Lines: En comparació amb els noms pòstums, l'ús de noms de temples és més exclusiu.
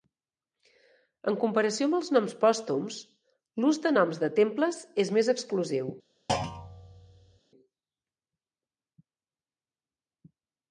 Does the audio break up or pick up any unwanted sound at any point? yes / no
yes